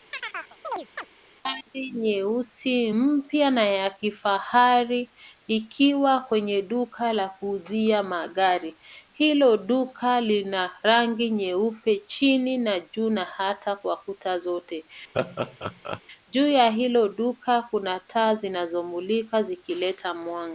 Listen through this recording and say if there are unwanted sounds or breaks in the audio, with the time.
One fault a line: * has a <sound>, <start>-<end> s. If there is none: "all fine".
* has a chirp, 0.1-1.1 s
* has a laugh, 15.1-16.0 s